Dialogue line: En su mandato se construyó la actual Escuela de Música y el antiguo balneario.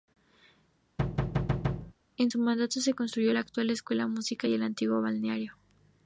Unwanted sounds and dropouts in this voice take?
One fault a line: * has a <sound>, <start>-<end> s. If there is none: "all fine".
* has a thud, 1.0-1.9 s